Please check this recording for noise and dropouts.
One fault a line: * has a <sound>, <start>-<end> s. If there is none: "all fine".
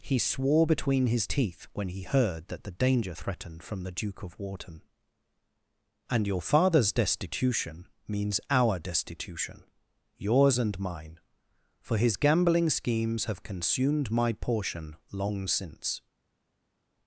all fine